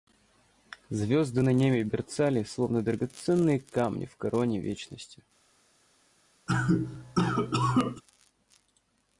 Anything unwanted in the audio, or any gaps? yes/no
yes